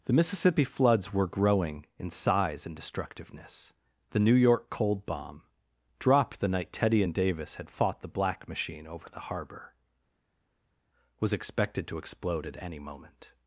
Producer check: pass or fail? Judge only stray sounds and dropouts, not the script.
pass